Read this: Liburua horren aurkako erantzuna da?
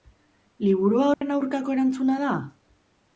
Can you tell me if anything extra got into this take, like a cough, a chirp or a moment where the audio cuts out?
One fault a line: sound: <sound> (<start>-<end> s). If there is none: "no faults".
sound: dropout (1.1-1.2 s)